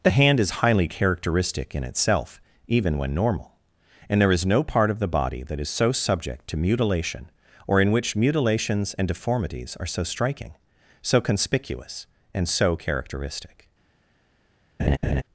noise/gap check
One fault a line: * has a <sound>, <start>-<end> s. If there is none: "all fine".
* has a laugh, 14.8-15.2 s